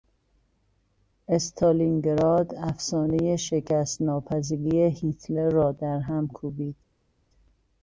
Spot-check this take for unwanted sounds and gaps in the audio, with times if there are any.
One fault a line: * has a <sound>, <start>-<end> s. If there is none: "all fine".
all fine